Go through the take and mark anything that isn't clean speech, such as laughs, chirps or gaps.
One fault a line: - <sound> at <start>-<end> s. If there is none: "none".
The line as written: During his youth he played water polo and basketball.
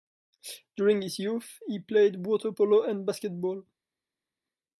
none